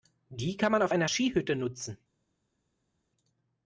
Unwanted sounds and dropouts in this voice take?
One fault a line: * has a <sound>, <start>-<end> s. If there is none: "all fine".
all fine